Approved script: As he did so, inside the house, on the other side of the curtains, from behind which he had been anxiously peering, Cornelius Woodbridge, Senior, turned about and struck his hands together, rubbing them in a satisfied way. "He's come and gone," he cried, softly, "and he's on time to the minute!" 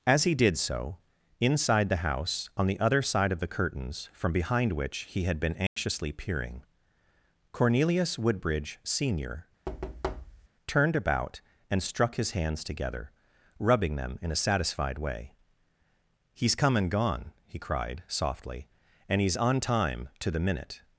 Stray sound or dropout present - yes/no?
yes